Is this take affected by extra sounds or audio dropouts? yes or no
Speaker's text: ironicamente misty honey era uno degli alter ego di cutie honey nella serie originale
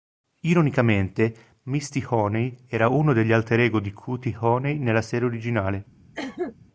yes